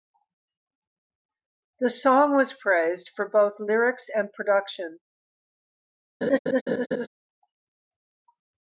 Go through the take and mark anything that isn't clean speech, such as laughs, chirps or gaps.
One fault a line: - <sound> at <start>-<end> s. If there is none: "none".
- laugh at 6.2-7.1 s